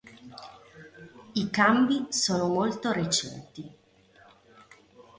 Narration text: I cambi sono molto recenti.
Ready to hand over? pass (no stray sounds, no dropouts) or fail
pass